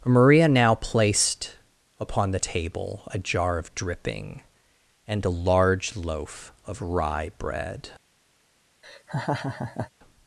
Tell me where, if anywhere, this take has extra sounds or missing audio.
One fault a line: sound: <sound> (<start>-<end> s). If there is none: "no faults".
sound: laugh (8.8-9.9 s)